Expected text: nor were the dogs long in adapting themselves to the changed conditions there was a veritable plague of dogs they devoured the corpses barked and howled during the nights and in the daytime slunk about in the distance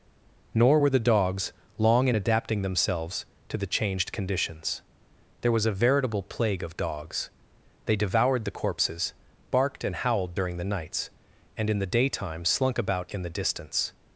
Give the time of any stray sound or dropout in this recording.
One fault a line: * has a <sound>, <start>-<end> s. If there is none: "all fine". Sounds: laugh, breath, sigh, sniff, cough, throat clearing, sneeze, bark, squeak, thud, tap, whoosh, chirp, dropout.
all fine